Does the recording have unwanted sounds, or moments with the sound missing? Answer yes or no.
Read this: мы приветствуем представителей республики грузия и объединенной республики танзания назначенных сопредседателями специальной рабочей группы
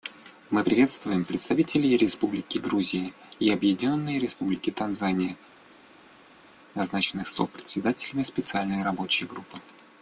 no